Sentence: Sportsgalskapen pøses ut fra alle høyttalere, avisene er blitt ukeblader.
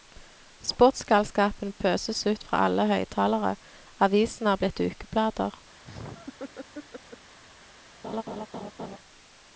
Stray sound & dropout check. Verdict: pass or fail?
fail